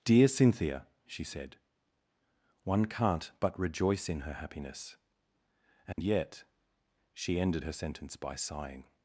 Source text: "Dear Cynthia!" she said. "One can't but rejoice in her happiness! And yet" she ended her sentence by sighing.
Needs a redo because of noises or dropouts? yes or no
yes